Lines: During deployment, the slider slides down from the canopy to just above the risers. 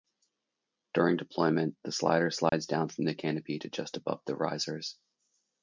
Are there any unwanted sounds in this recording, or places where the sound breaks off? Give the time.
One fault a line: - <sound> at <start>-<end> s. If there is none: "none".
- dropout at 2.5-2.5 s